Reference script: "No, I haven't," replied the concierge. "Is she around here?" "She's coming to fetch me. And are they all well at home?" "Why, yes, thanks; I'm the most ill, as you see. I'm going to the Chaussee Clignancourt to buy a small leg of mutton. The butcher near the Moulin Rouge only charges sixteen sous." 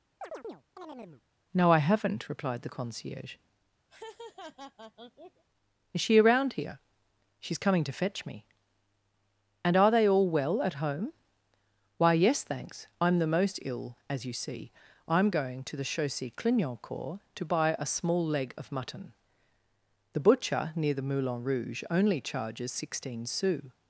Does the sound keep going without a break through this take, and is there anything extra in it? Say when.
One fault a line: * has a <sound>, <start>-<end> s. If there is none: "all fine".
* has a chirp, 0.2-1.2 s
* has a laugh, 3.9-5.4 s